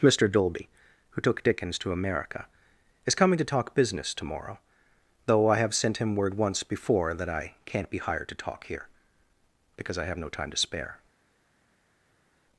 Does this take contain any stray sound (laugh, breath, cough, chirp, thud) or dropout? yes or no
no